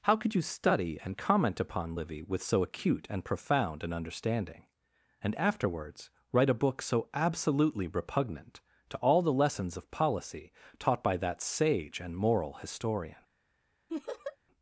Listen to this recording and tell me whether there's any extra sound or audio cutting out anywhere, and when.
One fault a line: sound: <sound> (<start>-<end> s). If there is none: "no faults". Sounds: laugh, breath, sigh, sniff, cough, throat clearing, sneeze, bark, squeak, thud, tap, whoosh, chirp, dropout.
sound: laugh (13.9-14.4 s)